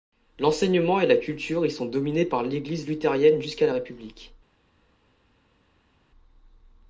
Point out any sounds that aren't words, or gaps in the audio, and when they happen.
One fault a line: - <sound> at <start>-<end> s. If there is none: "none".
none